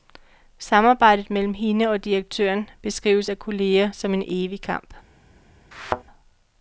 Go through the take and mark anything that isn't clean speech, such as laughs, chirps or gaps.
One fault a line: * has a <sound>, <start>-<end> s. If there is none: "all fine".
* has a thud, 5.7-6.0 s